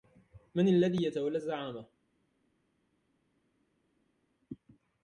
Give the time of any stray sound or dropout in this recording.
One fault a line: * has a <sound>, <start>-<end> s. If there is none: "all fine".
all fine